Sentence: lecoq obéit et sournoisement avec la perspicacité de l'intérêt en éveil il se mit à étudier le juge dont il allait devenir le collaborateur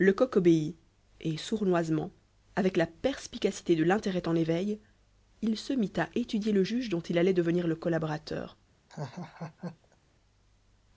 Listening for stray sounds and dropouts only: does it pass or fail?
fail